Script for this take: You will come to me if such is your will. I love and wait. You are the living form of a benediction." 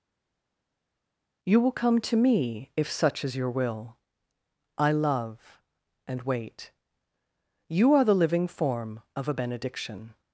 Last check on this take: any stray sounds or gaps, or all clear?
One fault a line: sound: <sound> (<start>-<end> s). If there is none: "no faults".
no faults